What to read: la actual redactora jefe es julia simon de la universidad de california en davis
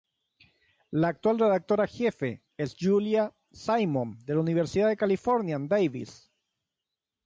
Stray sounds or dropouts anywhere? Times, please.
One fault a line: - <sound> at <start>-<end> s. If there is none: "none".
none